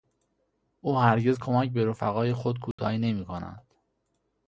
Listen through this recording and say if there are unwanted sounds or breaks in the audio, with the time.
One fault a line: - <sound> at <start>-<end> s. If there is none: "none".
- dropout at 2.7-2.8 s